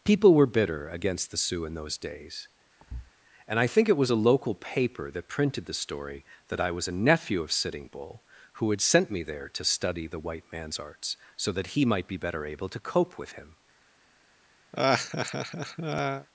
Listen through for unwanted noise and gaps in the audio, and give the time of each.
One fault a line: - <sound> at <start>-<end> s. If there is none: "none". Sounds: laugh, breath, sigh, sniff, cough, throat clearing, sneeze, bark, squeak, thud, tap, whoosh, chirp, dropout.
- thud at 2.8-3.1 s
- laugh at 14.7-16.3 s